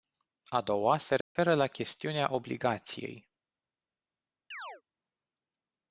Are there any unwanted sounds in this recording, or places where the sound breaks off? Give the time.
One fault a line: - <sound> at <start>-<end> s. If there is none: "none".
- dropout at 1.2-1.4 s
- chirp at 4.5-4.8 s